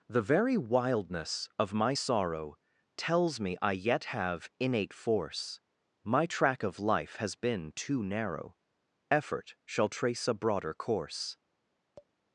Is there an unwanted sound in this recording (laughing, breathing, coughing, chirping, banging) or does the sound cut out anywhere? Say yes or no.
yes